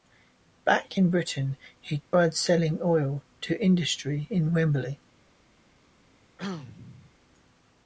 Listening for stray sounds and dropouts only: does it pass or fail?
fail